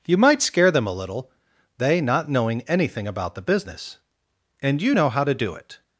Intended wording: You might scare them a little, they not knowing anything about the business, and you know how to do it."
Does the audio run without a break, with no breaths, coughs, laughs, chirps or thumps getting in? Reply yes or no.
yes